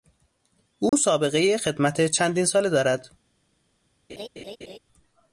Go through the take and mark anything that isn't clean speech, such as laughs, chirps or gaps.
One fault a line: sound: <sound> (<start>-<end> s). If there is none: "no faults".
sound: dropout (0.9-0.9 s)
sound: laugh (4.1-4.8 s)